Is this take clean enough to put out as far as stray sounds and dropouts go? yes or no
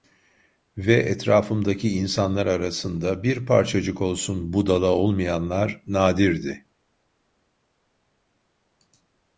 yes